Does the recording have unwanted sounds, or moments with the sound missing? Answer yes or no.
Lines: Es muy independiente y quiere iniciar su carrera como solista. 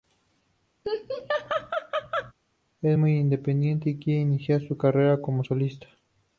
yes